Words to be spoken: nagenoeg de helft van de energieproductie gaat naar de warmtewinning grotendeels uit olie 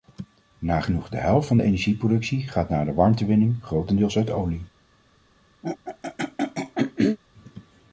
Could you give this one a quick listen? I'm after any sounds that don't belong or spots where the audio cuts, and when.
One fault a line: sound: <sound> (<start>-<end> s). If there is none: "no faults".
sound: throat clearing (5.6-7.2 s)